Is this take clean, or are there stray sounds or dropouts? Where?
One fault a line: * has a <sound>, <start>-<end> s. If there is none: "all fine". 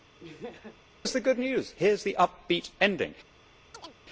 * has a laugh, 0.2-0.8 s
* has a chirp, 3.7-4.0 s